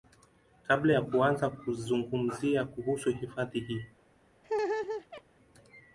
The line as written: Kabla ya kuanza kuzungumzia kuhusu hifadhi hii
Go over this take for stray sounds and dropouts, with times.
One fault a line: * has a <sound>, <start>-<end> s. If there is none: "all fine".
* has a laugh, 4.4-5.2 s